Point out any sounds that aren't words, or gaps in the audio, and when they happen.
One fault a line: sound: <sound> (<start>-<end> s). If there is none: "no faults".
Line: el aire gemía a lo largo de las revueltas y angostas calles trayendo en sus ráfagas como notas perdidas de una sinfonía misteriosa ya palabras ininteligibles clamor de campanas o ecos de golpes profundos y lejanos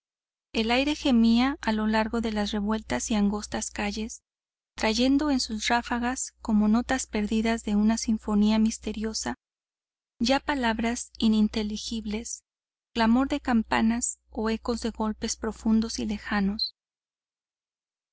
no faults